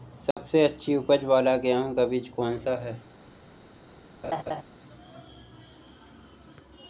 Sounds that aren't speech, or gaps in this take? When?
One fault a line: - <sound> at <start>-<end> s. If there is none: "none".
- dropout at 0.3-0.4 s
- laugh at 4.2-4.6 s